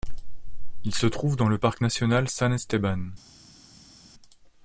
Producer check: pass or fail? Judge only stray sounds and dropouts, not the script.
pass